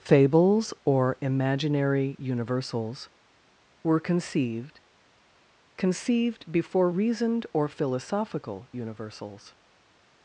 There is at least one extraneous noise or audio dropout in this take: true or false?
false